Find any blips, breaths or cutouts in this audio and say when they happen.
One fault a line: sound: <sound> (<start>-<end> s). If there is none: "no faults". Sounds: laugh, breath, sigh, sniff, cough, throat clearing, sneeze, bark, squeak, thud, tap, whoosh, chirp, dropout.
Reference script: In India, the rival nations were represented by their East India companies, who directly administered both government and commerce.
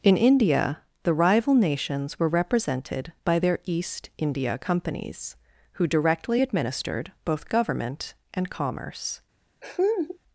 sound: laugh (9.6-10.2 s)